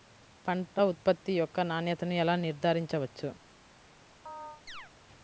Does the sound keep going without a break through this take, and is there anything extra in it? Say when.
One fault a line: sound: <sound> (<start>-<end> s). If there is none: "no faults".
sound: chirp (4.3-4.9 s)